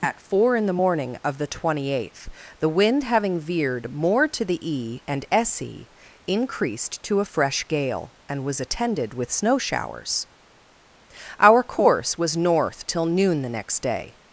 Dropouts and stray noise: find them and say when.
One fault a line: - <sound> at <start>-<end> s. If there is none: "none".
none